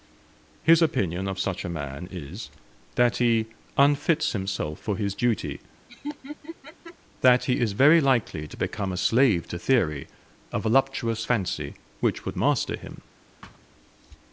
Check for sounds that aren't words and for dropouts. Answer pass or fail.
fail